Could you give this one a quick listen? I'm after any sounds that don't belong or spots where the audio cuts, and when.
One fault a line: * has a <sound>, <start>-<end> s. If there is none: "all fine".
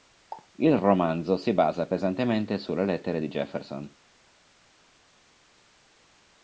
all fine